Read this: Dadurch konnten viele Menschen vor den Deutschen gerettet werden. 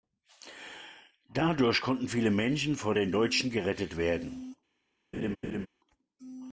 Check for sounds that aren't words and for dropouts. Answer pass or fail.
fail